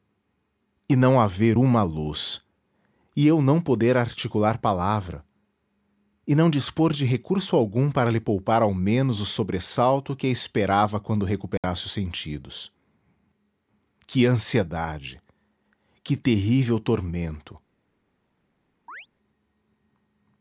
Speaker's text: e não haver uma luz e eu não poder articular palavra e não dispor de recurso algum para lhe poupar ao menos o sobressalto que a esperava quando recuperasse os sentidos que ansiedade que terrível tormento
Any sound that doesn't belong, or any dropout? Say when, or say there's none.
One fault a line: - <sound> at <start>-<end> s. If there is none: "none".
- dropout at 11.6-11.6 s
- chirp at 18.9-19.1 s